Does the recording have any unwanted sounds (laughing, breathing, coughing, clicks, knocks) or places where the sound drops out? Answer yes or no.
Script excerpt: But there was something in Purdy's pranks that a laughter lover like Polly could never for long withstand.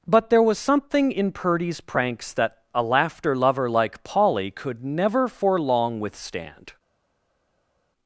no